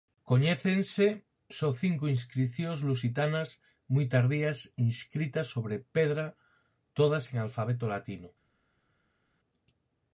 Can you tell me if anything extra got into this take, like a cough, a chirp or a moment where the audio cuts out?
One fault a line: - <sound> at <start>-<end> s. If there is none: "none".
none